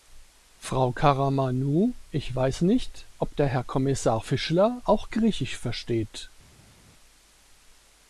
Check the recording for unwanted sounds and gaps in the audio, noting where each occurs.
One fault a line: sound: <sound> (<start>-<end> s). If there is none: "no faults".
no faults